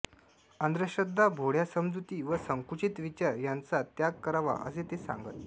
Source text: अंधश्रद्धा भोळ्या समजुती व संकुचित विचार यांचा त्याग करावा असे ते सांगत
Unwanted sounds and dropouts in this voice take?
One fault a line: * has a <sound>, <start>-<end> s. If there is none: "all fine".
all fine